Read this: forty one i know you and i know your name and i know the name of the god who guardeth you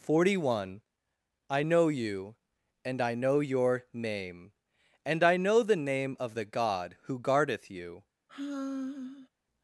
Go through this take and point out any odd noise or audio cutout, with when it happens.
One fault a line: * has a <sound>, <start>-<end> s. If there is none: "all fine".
* has a sigh, 8.3-9.3 s